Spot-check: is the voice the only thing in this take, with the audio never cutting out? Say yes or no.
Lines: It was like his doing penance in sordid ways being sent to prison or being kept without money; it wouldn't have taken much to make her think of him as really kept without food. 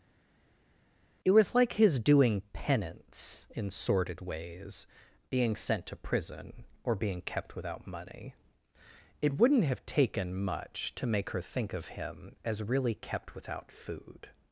yes